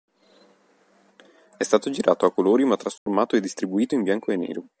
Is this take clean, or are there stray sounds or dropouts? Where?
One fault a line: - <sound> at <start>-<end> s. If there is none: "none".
- dropout at 3.0-3.1 s